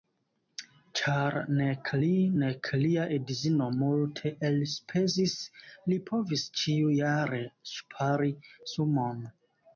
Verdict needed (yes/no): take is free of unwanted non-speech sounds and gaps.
yes